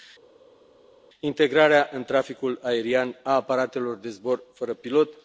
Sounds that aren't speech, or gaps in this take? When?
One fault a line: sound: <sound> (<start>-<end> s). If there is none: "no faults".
no faults